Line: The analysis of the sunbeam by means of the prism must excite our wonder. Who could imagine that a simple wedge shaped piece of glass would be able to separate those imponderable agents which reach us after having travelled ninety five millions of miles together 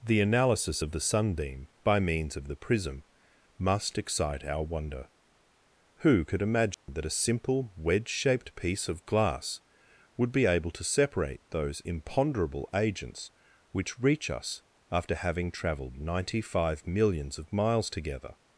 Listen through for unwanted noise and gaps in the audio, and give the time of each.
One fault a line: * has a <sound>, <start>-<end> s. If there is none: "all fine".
* has a dropout, 6.7-6.9 s